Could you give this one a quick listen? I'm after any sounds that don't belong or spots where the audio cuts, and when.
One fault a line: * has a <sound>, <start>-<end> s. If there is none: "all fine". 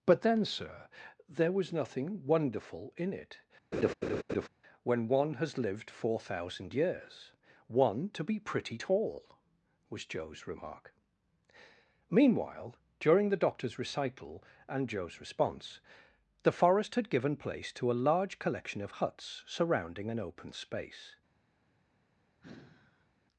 * has a laugh, 3.7-4.5 s
* has a sigh, 22.4-23.1 s